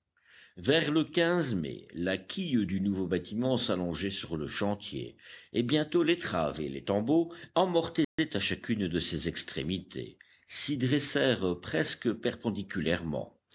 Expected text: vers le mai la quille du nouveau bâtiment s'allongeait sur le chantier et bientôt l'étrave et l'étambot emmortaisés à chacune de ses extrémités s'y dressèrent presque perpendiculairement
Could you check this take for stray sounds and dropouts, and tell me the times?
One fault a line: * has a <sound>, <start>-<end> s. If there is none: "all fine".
* has a dropout, 8.0-8.2 s